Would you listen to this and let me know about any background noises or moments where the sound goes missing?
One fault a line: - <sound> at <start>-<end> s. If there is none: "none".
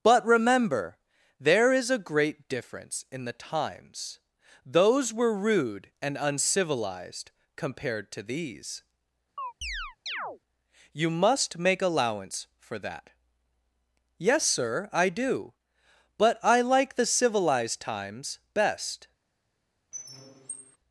- chirp at 9.4-10.4 s
- squeak at 19.9-20.8 s